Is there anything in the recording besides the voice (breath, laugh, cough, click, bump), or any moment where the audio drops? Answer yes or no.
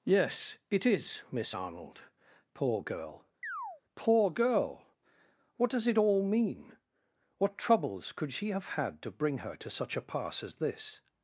yes